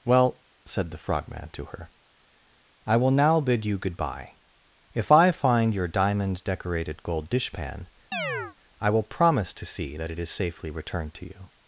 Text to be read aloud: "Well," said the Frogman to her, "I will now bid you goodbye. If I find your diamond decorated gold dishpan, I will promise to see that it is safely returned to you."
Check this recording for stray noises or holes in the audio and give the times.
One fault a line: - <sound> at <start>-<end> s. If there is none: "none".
- chirp at 8.1-8.6 s